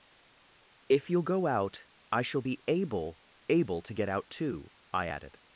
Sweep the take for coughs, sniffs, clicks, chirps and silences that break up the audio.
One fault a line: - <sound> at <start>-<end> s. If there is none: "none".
none